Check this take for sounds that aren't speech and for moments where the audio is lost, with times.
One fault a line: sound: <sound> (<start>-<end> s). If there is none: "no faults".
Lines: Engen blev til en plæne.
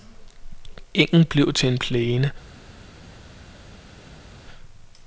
no faults